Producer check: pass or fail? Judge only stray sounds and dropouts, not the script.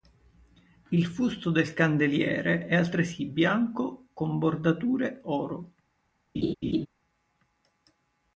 fail